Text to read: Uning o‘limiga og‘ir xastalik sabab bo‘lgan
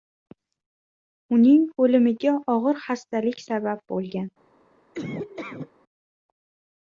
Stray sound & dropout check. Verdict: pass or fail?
fail